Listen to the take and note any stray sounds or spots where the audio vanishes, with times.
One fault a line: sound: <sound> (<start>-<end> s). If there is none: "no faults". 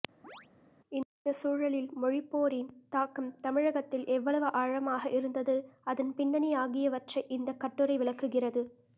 sound: chirp (0.2-0.5 s)